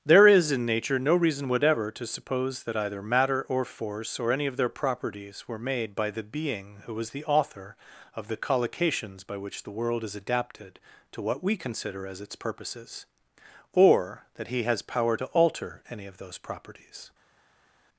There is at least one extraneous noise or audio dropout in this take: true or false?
false